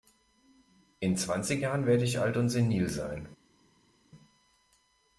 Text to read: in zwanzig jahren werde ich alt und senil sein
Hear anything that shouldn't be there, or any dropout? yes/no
no